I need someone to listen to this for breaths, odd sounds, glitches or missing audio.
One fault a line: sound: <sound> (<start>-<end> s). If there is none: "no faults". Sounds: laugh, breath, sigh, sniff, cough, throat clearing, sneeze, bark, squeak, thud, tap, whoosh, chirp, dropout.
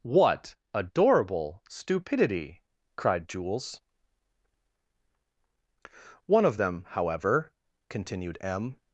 no faults